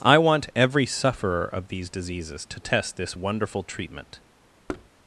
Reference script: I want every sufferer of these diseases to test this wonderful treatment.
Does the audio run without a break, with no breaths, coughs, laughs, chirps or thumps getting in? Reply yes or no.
no